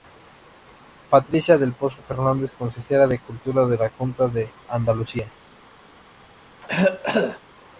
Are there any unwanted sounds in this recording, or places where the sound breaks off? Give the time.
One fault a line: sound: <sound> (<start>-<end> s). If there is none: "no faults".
sound: cough (6.6-7.4 s)